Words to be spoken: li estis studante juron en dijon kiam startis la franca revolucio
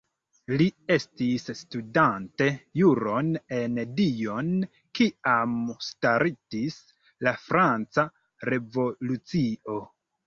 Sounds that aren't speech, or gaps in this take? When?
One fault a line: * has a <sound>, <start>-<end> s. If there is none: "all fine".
all fine